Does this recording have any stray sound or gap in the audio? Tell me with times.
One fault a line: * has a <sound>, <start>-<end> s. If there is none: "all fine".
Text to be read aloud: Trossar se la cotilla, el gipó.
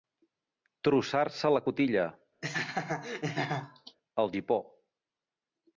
* has a laugh, 2.4-4.0 s